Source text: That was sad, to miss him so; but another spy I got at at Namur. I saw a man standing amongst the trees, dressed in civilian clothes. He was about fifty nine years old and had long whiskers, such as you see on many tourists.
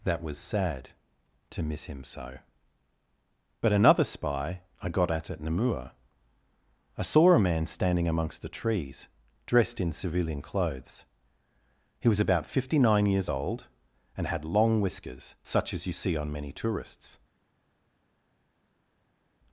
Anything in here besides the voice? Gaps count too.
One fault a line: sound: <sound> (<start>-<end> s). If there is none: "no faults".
no faults